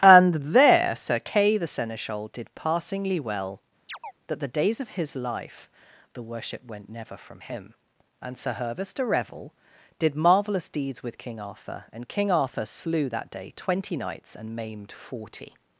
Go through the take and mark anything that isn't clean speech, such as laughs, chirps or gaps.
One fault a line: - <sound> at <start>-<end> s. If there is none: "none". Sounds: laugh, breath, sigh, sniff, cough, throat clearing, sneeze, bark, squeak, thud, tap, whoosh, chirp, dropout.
- chirp at 3.9-4.1 s